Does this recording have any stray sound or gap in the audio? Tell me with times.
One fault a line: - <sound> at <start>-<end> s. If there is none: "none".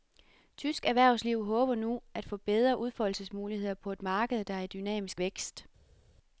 none